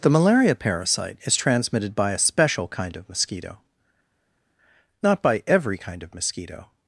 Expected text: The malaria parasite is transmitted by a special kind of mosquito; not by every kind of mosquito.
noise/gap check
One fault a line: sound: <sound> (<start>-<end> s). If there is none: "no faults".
no faults